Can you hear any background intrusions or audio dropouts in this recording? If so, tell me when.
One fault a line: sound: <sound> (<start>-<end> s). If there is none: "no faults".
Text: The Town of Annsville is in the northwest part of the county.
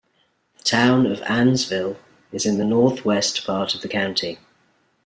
no faults